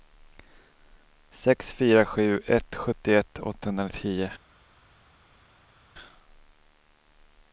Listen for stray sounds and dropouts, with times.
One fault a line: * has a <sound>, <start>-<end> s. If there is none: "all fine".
all fine